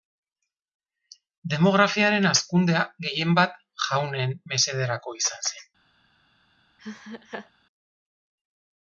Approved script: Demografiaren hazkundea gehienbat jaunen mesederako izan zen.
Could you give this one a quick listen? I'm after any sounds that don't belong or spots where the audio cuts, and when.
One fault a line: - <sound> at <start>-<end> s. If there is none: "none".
- laugh at 6.8-7.5 s